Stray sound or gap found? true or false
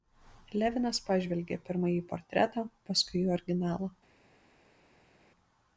false